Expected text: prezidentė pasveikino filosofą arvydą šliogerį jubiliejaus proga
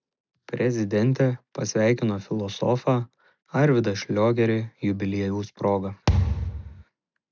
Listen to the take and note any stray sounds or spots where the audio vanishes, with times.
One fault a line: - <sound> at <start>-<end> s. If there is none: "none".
- thud at 6.1-6.8 s